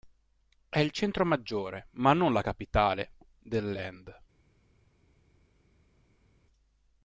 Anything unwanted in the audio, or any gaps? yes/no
no